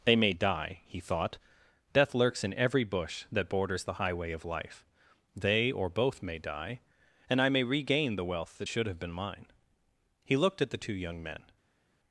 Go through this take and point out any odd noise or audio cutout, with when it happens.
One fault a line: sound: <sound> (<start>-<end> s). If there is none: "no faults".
no faults